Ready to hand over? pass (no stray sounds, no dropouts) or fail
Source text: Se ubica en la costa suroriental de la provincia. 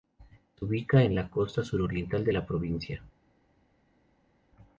pass